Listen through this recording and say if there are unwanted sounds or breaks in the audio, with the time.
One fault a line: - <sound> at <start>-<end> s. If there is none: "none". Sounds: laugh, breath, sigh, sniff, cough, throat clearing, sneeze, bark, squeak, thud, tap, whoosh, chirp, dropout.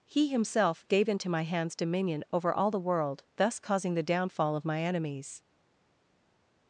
none